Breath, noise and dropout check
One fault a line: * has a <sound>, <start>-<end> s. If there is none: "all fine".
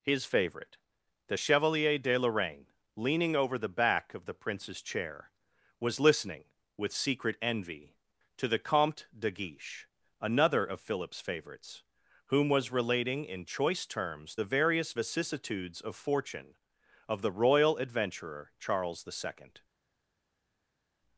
all fine